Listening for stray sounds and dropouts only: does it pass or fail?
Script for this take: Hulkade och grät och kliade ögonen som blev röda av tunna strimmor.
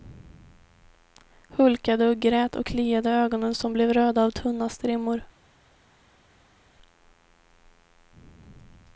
pass